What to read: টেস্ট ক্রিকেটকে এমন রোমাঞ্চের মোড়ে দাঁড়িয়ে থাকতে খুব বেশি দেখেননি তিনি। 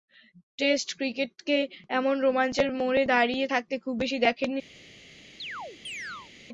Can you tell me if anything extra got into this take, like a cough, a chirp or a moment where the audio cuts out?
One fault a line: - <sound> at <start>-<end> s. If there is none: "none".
- chirp at 5.4-6.3 s